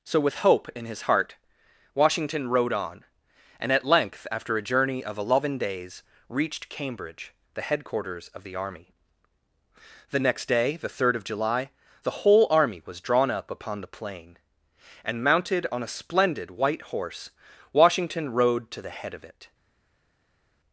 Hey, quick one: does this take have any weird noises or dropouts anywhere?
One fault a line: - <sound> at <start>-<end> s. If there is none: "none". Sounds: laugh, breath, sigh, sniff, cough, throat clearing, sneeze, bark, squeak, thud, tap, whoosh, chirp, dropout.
none